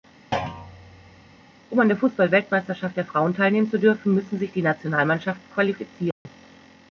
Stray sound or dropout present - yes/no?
yes